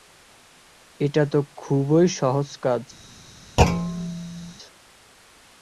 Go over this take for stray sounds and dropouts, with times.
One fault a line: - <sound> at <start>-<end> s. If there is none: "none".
- thud at 3.6-4.5 s